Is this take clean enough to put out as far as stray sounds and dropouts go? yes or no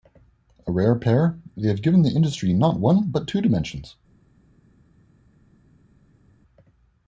yes